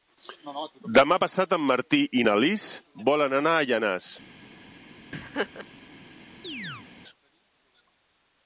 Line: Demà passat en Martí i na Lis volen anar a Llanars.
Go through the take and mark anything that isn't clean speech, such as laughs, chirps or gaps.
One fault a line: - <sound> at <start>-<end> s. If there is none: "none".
- laugh at 5.1-5.7 s
- chirp at 6.4-6.9 s